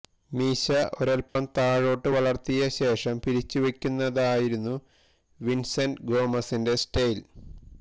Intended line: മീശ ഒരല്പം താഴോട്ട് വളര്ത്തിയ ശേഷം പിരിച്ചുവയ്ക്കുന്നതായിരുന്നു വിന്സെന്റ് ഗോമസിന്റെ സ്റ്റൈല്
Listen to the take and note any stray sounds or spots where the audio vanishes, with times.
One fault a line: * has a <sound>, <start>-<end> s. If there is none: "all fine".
* has a dropout, 1.3-1.4 s